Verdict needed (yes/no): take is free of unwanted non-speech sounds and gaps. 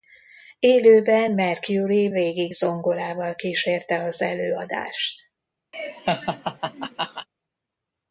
no